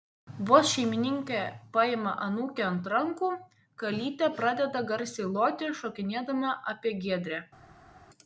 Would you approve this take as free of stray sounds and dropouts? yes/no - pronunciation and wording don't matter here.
yes